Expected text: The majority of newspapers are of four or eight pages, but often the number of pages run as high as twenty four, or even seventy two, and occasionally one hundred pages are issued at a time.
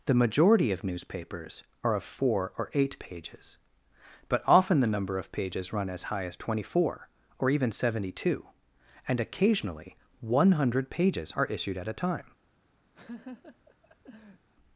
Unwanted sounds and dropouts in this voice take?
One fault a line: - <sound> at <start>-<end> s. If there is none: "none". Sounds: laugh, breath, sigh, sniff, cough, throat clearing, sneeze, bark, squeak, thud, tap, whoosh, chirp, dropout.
- laugh at 12.9-14.5 s